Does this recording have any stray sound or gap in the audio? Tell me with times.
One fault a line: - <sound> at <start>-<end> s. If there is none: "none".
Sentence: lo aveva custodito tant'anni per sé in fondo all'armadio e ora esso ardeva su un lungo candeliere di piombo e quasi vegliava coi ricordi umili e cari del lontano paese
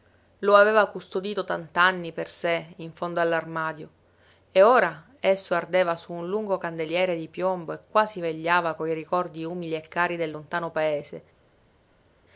none